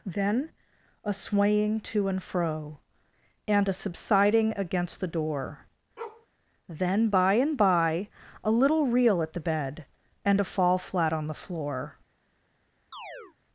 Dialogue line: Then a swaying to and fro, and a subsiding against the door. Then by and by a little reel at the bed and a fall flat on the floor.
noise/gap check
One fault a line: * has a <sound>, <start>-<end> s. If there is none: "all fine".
* has a bark, 6.0-6.3 s
* has a chirp, 12.9-13.4 s